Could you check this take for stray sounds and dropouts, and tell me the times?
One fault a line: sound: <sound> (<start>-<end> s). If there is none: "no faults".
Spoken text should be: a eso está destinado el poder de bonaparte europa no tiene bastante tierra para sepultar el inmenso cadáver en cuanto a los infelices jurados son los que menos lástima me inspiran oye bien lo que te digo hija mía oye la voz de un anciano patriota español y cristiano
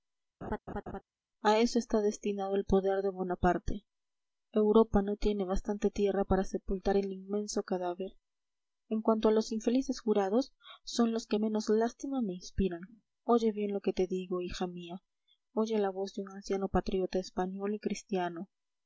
sound: laugh (0.4-1.0 s)